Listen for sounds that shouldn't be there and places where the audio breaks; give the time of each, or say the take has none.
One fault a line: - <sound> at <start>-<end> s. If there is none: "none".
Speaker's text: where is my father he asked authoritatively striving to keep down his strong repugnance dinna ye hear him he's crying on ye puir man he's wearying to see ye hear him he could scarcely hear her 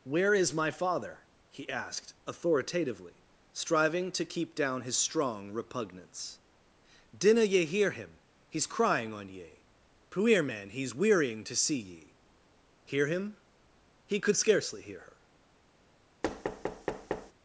- thud at 16.2-17.3 s